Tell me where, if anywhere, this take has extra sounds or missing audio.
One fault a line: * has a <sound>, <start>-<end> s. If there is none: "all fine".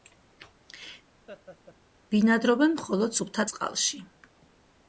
* has a laugh, 1.3-1.8 s